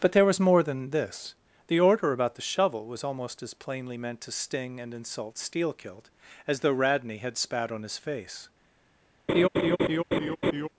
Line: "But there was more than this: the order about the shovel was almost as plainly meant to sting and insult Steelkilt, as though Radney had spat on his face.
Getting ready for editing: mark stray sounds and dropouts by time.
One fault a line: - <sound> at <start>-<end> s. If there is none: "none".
- laugh at 9.3-10.7 s